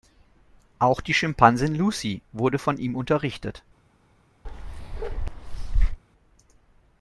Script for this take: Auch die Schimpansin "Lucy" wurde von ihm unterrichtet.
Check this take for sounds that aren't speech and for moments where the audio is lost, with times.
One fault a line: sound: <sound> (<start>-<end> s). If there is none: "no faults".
sound: bark (4.4-6.0 s)